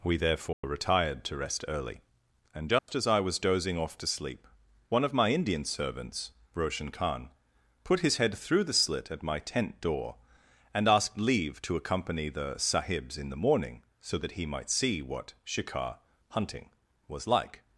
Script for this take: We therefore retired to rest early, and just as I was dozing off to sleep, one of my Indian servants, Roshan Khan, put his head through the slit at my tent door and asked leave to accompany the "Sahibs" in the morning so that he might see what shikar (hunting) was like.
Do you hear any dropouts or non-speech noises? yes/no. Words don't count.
yes